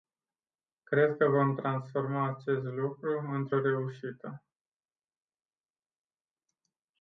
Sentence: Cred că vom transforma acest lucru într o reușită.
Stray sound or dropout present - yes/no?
no